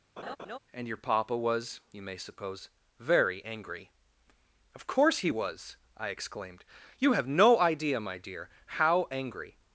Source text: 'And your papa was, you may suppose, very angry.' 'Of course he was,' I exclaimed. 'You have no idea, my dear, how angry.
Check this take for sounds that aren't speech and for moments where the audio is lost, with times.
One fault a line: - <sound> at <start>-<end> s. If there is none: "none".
- laugh at 0.2-0.6 s